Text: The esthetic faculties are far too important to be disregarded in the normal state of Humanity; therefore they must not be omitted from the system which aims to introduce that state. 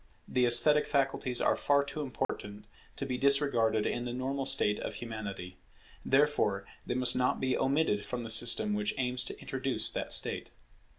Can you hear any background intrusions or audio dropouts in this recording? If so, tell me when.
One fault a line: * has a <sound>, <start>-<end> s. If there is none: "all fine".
* has a dropout, 2.2-2.3 s